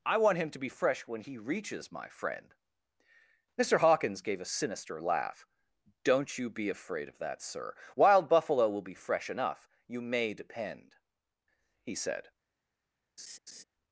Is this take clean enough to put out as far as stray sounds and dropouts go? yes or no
no